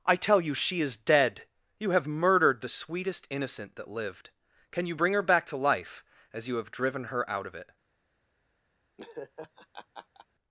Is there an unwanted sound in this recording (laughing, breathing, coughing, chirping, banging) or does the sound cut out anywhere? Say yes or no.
yes